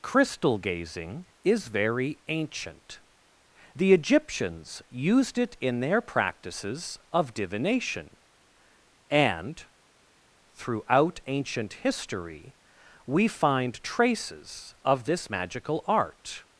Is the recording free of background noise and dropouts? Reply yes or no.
yes